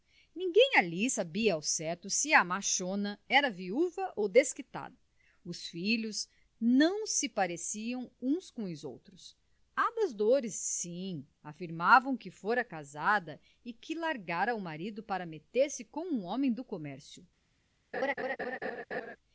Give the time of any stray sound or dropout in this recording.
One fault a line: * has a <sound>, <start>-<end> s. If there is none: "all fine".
* has a laugh, 17.9-19.2 s